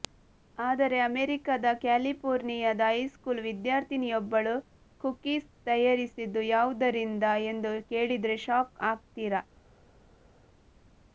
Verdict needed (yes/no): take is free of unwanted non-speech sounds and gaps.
yes